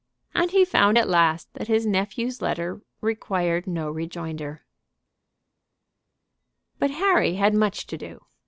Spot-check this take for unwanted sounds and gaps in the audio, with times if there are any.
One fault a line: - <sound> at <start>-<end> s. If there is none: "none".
none